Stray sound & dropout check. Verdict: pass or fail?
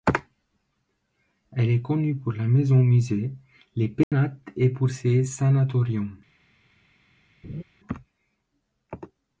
fail